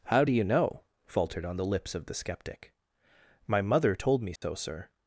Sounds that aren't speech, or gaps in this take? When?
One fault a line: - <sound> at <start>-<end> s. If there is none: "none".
- dropout at 4.4-4.4 s